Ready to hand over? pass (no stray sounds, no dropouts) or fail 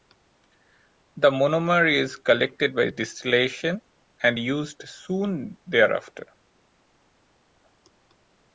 pass